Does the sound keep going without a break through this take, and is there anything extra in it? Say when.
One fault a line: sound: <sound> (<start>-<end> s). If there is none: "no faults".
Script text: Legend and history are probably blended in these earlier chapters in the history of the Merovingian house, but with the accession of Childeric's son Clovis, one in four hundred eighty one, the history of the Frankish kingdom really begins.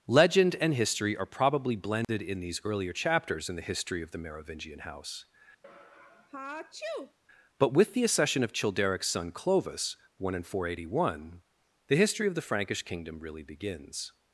sound: dropout (2.0-2.1 s)
sound: sneeze (5.6-7.2 s)